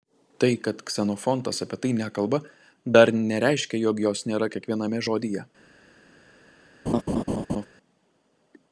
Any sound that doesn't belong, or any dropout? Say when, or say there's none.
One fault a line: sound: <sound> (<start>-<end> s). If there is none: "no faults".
sound: laugh (6.9-7.7 s)